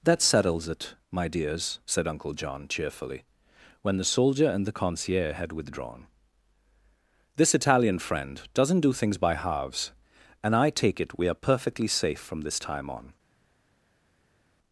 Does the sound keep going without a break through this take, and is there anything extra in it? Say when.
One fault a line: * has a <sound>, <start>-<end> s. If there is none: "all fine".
all fine